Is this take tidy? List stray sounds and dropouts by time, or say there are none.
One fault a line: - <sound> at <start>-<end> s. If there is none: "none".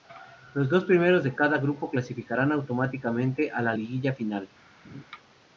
- laugh at 4.8-5.0 s